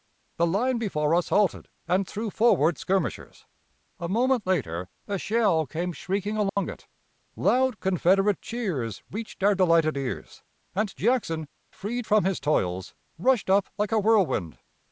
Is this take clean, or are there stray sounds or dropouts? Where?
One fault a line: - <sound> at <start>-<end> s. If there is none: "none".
- dropout at 6.5-6.6 s